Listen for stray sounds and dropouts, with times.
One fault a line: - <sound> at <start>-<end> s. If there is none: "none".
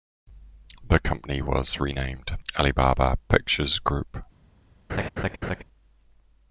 - laugh at 4.9-5.6 s